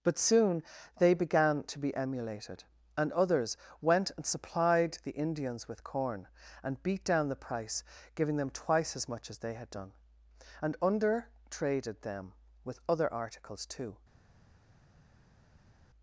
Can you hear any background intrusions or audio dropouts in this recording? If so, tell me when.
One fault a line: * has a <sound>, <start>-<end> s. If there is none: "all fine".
all fine